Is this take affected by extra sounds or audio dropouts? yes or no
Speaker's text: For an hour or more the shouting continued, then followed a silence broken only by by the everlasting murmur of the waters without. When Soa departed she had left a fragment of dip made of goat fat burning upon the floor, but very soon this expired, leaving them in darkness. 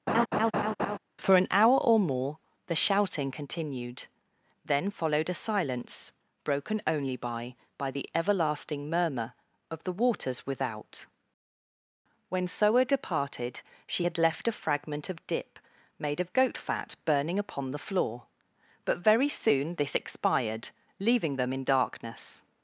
yes